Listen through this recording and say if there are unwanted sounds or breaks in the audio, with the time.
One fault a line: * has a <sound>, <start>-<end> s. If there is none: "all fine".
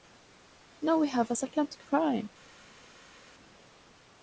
all fine